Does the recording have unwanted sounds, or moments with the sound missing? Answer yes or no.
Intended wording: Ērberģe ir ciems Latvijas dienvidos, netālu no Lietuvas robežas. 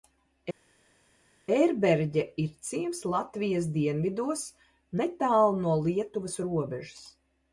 no